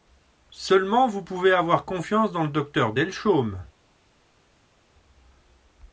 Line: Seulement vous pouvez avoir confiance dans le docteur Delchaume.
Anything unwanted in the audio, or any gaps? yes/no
no